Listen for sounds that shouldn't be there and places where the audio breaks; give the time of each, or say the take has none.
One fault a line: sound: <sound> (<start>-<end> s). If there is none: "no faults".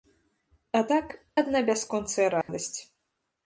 sound: dropout (2.4-2.5 s)